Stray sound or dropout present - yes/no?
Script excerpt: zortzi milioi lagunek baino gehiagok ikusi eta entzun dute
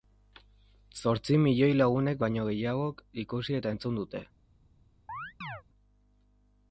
yes